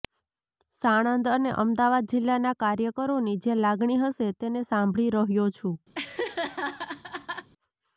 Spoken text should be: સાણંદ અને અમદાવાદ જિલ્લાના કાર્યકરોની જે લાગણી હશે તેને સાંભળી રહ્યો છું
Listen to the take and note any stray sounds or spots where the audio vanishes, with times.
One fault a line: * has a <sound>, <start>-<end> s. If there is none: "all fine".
* has a laugh, 5.9-7.5 s